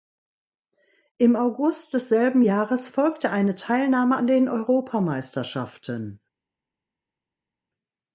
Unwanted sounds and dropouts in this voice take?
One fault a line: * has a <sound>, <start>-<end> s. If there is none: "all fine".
all fine